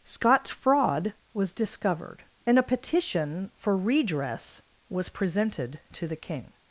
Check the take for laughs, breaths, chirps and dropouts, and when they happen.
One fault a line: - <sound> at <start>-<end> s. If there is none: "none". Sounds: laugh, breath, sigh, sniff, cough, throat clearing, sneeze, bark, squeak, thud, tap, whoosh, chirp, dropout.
none